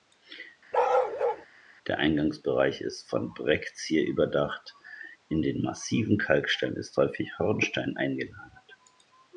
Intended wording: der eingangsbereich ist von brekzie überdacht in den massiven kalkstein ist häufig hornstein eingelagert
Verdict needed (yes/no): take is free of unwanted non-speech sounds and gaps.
no